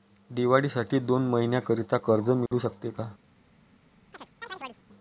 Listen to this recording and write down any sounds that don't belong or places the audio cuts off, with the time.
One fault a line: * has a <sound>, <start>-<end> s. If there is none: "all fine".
* has a dropout, 2.5-2.5 s
* has a chirp, 4.1-4.8 s